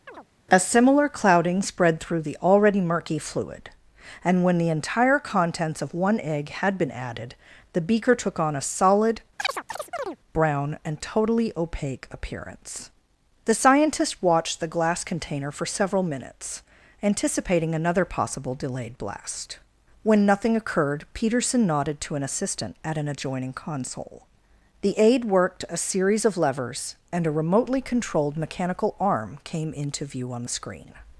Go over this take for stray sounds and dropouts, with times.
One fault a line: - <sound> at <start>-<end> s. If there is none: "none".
- chirp at 0.1-0.3 s
- chirp at 9.4-10.2 s